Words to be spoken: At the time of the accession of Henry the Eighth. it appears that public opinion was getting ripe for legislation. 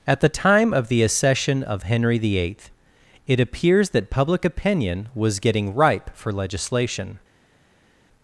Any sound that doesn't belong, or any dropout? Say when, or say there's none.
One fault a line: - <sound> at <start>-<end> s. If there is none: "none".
none